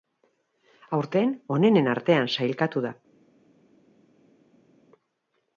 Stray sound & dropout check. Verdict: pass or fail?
pass